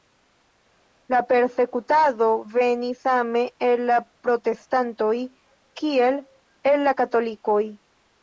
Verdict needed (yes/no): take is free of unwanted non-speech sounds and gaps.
yes